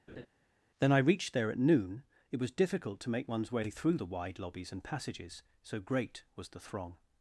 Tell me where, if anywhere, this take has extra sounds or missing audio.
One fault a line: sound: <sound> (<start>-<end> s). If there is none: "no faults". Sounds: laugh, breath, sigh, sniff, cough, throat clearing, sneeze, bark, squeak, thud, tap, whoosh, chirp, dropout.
sound: laugh (0.1-0.3 s)